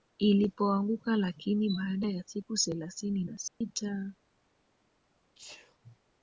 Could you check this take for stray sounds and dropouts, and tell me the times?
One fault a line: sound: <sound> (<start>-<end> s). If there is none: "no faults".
sound: dropout (3.5-3.6 s)
sound: sneeze (5.3-5.8 s)